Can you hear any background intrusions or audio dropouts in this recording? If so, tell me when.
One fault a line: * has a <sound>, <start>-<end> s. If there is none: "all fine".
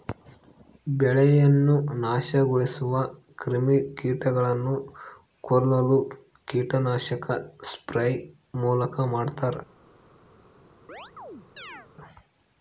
* has a chirp, 10.9-11.9 s